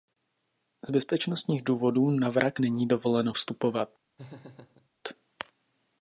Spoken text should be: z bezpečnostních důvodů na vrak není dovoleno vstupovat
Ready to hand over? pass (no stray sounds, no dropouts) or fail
fail